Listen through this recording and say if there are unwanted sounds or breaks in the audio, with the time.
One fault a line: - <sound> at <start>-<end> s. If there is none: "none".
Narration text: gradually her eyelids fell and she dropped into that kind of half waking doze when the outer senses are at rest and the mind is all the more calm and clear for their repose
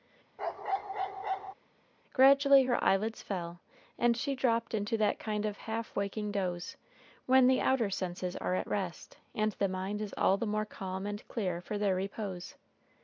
- bark at 0.4-1.5 s